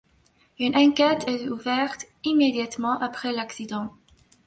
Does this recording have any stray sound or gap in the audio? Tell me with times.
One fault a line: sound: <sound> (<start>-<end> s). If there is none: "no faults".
no faults